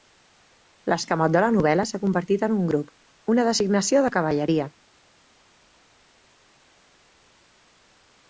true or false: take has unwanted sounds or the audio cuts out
false